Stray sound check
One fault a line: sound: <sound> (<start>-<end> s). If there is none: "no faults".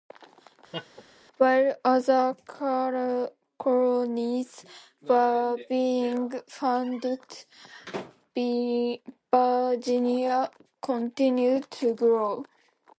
sound: laugh (0.7-1.0 s)